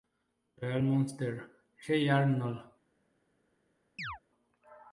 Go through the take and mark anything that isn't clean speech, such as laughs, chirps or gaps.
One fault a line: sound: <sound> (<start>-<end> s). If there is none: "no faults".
sound: chirp (4.0-4.2 s)